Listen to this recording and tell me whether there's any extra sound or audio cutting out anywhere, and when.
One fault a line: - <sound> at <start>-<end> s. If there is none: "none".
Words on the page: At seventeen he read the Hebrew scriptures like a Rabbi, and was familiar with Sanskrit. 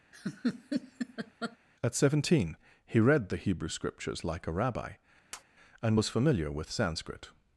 - laugh at 0.1-1.6 s
- tap at 5.3-5.4 s